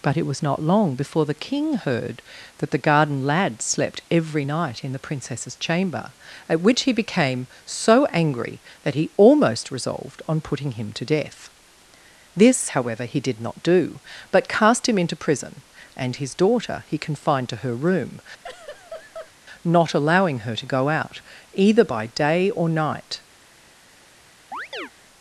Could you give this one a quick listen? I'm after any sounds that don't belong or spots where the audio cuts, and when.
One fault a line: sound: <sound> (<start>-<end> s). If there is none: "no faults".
sound: laugh (18.4-19.3 s)
sound: chirp (24.5-24.9 s)